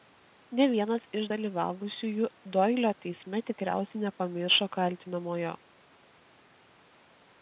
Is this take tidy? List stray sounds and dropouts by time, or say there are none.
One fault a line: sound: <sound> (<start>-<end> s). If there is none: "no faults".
no faults